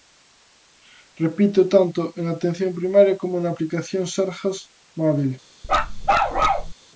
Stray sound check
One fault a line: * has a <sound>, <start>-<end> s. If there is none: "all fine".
* has a bark, 5.6-6.7 s